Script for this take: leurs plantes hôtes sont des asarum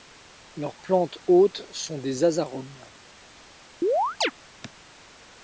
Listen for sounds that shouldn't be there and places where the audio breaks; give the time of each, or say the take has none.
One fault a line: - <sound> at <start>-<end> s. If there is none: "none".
- chirp at 3.8-4.3 s